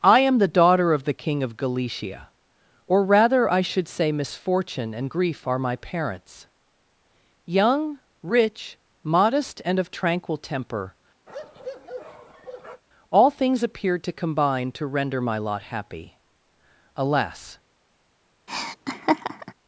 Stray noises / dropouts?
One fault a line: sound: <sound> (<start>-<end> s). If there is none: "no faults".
sound: bark (11.3-12.8 s)
sound: laugh (18.5-19.5 s)